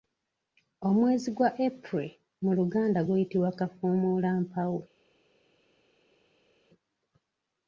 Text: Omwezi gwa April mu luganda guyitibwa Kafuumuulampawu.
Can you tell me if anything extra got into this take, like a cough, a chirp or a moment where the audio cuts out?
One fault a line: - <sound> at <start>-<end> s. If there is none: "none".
none